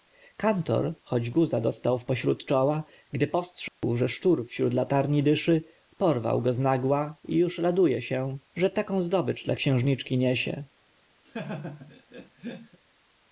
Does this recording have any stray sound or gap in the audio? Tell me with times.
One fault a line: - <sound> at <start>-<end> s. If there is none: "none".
- dropout at 3.7-3.8 s
- laugh at 11.2-12.8 s